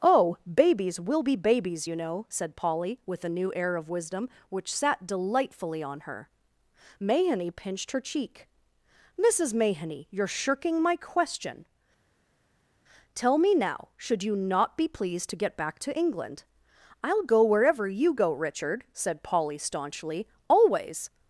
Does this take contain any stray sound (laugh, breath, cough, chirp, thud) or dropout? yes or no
no